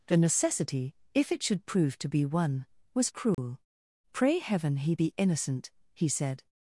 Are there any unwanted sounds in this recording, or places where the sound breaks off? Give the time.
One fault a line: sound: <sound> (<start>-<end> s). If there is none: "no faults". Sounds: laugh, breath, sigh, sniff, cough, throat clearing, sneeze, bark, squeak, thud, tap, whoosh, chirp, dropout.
sound: dropout (3.3-3.4 s)